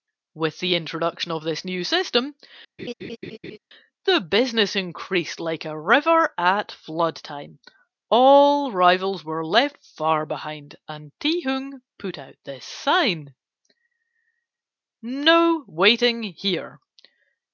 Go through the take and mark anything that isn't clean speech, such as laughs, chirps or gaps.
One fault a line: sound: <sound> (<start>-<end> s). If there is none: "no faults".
sound: laugh (2.8-3.6 s)